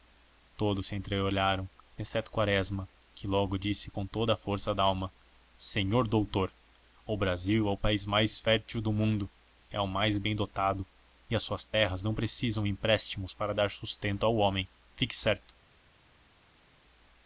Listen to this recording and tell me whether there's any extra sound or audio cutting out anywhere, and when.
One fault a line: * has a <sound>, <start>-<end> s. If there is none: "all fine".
all fine